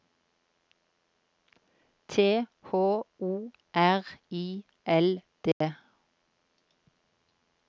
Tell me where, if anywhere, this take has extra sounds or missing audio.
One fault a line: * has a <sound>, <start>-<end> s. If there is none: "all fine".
* has a dropout, 5.5-5.6 s